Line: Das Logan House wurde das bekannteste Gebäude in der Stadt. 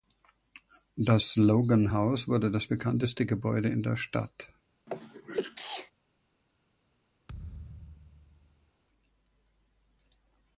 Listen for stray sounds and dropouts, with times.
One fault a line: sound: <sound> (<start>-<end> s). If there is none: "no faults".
sound: sneeze (4.9-5.9 s)
sound: thud (7.3-8.7 s)